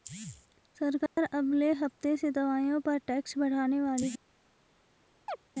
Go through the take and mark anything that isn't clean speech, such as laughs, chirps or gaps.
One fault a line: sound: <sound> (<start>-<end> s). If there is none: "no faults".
sound: dropout (1.1-1.2 s)
sound: chirp (5.3-5.4 s)